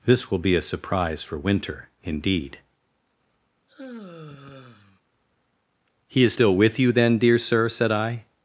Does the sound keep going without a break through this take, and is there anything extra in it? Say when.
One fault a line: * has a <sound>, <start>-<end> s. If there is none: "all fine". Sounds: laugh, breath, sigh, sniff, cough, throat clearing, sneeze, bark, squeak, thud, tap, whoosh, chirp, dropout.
* has a sigh, 3.7-5.0 s